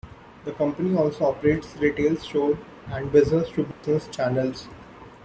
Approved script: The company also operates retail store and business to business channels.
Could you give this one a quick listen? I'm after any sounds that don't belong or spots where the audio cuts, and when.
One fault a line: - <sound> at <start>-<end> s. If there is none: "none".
- dropout at 3.7-3.8 s